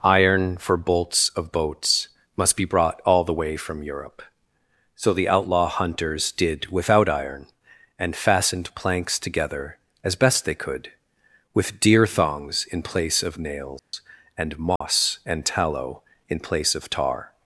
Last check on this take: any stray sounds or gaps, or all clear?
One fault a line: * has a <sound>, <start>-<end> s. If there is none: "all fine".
* has a dropout, 13.8-13.9 s
* has a dropout, 14.8-14.8 s